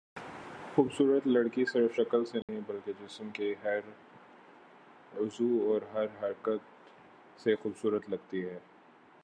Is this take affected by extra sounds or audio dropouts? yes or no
yes